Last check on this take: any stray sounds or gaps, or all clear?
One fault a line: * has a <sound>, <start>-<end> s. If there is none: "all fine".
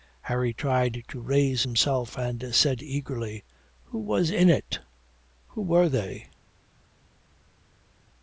all fine